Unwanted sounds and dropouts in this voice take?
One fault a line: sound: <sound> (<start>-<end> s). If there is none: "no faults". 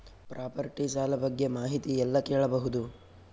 no faults